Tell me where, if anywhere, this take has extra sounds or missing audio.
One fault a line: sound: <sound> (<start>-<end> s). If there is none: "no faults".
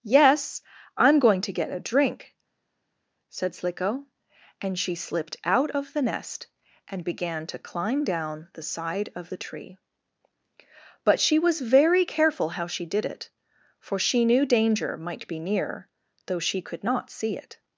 no faults